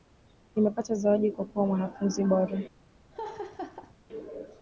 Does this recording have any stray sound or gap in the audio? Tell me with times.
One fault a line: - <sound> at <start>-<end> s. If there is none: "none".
- laugh at 3.1-4.0 s